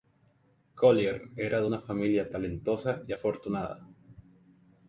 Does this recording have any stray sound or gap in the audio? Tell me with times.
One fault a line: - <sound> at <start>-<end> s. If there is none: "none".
none